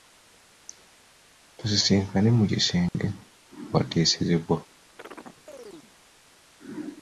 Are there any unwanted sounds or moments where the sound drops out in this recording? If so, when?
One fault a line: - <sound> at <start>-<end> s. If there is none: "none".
- dropout at 2.9-2.9 s
- chirp at 5.0-5.9 s